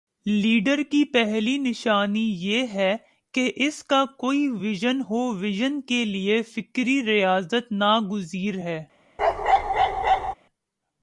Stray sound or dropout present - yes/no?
yes